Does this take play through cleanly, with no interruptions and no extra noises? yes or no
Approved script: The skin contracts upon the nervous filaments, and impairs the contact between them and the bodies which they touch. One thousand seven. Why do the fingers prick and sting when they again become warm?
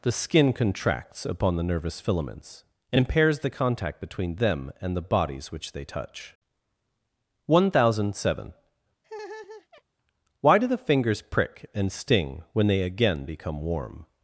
no